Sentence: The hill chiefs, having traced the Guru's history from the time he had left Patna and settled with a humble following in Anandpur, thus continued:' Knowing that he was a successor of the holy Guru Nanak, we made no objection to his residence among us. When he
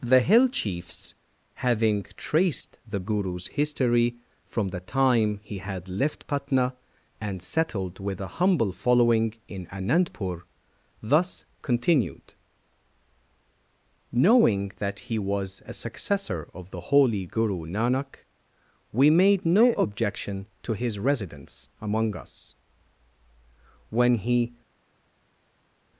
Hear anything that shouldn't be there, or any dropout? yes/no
no